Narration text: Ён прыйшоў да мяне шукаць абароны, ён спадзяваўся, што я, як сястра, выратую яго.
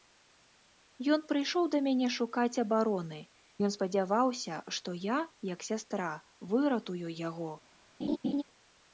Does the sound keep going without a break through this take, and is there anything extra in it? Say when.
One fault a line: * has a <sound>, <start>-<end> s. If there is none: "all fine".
* has a laugh, 8.0-8.4 s